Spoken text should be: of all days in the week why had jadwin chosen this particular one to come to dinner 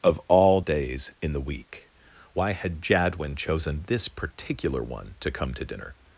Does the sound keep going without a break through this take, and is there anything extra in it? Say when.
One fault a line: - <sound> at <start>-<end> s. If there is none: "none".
none